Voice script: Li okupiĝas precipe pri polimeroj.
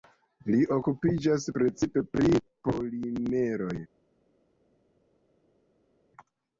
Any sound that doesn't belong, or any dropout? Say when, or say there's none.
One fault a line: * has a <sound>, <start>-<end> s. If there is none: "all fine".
all fine